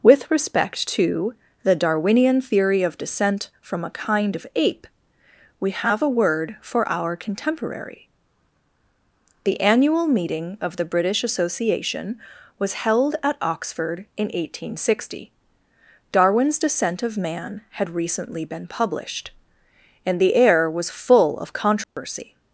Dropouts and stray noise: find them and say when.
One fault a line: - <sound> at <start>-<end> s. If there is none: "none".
- dropout at 21.8-22.0 s